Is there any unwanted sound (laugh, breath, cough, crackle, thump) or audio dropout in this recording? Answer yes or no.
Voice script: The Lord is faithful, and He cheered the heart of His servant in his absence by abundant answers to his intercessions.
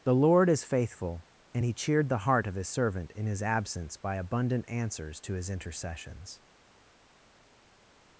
no